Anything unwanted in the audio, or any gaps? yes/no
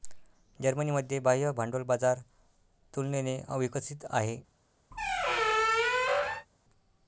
yes